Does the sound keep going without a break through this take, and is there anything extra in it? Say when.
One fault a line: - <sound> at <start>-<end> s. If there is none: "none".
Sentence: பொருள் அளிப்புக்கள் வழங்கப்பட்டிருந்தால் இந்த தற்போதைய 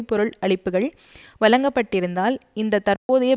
- dropout at 3.0-3.1 s